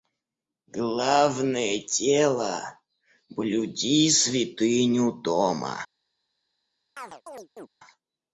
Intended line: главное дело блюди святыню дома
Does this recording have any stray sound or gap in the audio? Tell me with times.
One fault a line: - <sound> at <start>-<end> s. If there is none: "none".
- chirp at 7.0-7.7 s